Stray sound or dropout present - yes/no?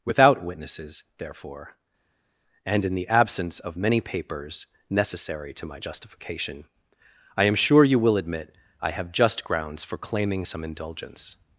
no